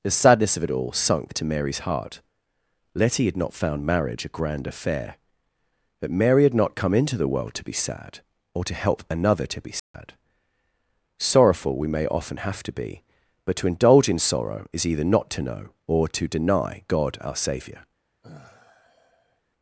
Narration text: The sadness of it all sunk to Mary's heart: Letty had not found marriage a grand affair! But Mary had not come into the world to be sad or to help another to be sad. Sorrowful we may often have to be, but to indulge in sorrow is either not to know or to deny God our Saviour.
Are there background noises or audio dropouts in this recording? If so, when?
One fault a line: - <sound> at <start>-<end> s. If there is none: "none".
- dropout at 9.8-9.9 s
- sigh at 18.2-19.4 s